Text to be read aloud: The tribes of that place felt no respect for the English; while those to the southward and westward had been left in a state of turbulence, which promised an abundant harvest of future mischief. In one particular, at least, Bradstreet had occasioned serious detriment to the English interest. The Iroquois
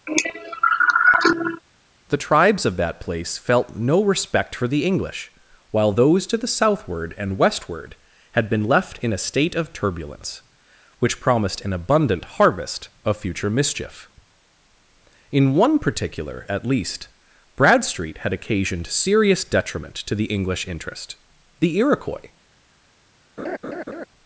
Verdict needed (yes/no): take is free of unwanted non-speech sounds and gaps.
no